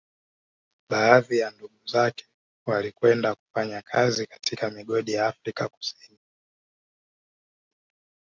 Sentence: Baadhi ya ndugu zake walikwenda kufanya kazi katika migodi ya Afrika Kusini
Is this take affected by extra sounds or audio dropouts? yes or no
no